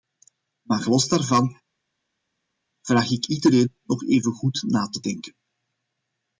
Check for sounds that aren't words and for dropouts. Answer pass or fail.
pass